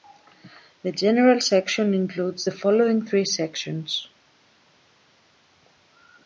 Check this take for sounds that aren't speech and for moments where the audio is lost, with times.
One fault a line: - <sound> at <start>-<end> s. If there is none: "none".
none